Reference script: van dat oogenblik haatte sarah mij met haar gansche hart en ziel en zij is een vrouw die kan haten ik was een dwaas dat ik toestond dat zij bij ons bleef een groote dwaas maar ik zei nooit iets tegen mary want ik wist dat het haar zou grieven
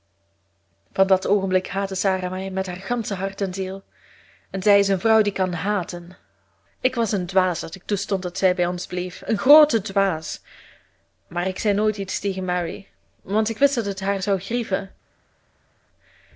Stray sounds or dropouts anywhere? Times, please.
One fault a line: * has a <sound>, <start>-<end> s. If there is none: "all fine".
all fine